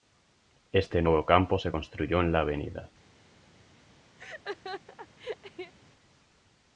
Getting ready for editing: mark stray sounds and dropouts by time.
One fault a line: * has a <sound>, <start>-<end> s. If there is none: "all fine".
* has a laugh, 4.2-5.7 s